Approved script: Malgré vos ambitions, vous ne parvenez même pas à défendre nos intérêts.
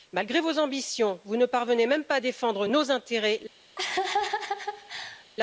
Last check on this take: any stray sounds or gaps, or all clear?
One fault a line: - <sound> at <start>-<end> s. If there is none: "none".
- laugh at 3.8-5.2 s